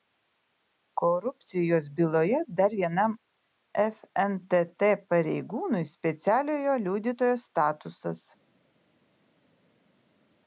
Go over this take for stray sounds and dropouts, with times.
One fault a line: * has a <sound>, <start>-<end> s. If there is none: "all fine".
all fine